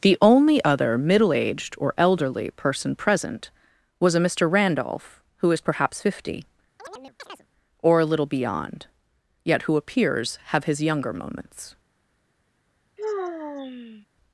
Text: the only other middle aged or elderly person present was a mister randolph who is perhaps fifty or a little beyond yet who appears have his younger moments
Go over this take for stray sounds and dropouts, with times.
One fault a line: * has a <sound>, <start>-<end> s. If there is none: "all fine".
* has a chirp, 6.8-7.5 s
* has a sigh, 13.0-14.1 s